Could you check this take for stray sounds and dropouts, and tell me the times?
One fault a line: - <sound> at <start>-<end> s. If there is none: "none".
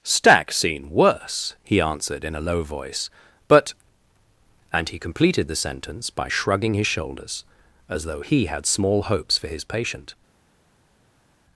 none